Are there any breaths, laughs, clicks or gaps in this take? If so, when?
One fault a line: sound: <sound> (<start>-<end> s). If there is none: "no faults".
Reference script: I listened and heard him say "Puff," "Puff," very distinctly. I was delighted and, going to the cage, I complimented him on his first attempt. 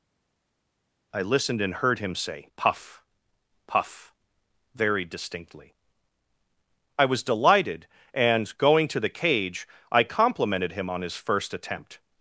no faults